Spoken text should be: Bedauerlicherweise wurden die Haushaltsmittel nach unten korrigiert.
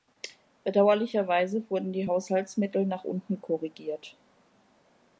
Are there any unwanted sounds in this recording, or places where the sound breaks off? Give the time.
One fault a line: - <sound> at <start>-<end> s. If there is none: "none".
none